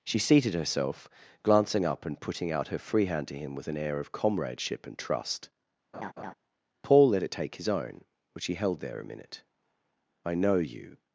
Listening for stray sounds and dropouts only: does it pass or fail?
fail